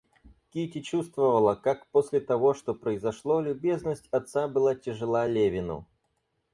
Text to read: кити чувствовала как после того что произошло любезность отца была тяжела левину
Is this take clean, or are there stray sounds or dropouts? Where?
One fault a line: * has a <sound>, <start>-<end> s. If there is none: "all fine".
all fine